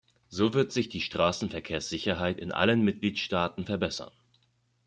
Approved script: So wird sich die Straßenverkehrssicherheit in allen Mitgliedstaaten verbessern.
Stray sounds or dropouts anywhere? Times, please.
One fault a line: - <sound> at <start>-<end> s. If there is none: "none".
none